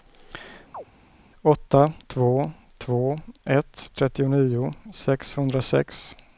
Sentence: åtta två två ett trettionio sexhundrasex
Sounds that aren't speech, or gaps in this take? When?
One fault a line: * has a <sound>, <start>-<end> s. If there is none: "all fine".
* has a chirp, 0.7-0.8 s